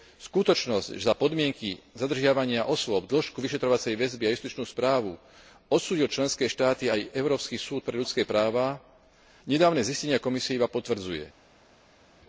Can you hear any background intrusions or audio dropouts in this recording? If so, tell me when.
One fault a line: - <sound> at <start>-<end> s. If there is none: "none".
none